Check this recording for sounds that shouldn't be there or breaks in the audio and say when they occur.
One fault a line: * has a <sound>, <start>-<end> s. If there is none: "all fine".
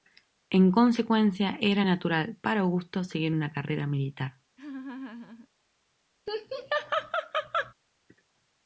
* has a laugh, 4.6-5.5 s
* has a laugh, 6.3-7.7 s